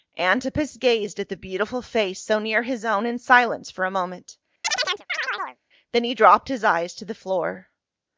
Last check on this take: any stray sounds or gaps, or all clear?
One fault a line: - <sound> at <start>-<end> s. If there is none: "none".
- chirp at 4.6-5.6 s